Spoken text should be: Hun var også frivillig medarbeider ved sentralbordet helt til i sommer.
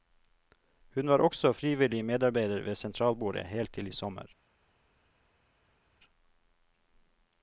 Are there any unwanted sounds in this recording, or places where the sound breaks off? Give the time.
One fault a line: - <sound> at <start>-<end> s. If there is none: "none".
none